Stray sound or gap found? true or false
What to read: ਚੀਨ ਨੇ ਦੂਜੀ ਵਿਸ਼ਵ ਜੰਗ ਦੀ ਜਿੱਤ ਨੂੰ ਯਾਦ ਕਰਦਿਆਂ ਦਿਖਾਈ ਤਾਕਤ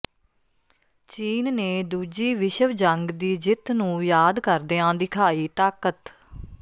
false